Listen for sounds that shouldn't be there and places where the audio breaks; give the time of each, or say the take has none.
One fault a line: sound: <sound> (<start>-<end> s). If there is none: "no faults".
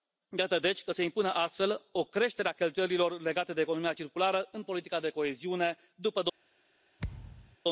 sound: thud (7.0-7.6 s)